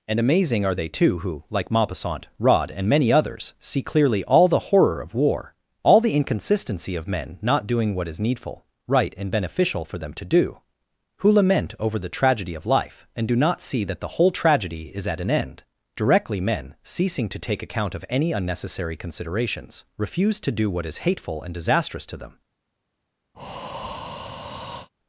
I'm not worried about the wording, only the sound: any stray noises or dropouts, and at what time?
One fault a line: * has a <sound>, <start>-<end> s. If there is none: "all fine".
* has a breath, 23.3-24.9 s